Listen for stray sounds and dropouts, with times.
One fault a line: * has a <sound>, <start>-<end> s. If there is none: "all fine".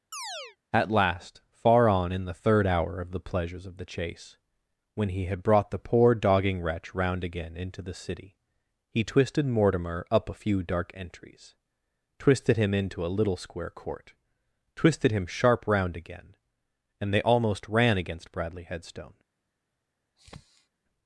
* has a chirp, 0.1-0.6 s
* has a sniff, 20.2-20.7 s